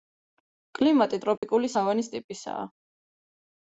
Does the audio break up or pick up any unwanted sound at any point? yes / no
yes